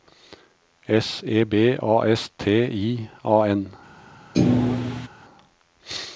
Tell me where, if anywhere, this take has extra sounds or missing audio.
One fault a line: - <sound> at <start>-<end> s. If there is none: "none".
- thud at 4.3-5.1 s